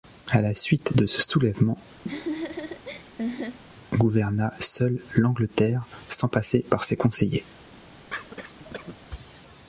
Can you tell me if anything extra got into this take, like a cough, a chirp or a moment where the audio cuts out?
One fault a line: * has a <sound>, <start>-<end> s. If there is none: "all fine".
* has a laugh, 2.0-3.6 s
* has a cough, 8.1-9.0 s